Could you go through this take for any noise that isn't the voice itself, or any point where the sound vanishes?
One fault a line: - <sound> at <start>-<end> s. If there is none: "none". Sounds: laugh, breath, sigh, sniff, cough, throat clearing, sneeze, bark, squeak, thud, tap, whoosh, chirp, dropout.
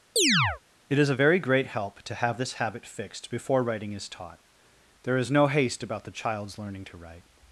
- chirp at 0.2-0.6 s